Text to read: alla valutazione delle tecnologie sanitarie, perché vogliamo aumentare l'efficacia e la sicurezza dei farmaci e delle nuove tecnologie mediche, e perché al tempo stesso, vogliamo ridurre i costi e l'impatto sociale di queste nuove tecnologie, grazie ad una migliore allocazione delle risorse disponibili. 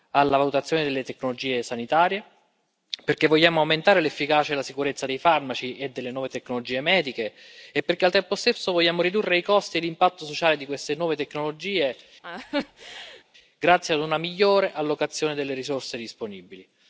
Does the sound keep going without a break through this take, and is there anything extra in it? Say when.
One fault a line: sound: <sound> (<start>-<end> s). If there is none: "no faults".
sound: laugh (12.2-13.2 s)